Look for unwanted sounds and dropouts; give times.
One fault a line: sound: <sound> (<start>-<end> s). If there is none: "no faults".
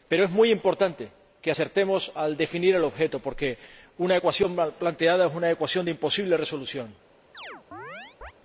sound: chirp (7.3-8.3 s)